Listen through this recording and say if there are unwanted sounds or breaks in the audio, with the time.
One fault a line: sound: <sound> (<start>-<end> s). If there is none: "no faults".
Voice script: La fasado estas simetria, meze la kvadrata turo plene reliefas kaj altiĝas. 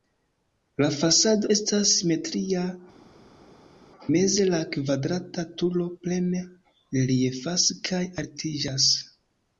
no faults